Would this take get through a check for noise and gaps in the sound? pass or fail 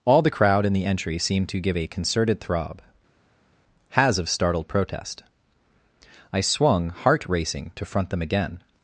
pass